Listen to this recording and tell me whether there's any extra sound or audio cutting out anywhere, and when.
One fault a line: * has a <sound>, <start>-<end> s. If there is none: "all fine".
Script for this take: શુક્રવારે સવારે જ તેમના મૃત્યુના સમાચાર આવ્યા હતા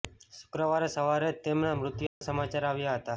* has a dropout, 2.1-2.2 s